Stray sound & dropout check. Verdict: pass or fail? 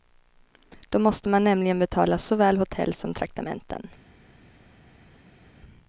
pass